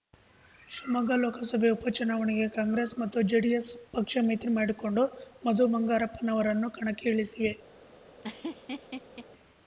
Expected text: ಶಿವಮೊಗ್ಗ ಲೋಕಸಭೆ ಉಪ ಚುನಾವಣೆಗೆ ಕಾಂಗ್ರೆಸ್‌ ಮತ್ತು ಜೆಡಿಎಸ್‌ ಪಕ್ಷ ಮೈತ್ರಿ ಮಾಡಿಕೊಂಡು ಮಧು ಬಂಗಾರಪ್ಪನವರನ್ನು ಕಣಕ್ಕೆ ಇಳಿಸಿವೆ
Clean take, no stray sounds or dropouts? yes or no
no